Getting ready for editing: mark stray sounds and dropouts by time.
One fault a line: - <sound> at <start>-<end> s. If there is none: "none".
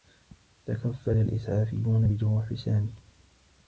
none